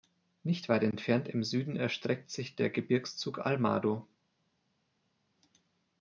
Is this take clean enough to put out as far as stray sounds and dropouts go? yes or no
yes